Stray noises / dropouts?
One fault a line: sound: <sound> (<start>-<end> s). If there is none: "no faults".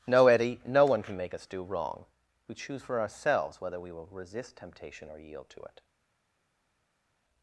no faults